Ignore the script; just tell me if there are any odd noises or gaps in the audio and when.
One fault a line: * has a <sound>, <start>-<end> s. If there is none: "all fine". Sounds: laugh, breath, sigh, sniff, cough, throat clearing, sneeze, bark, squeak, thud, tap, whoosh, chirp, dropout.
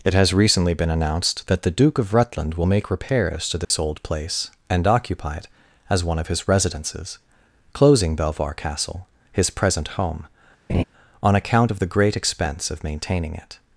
* has a dropout, 3.6-3.7 s
* has a laugh, 10.7-10.8 s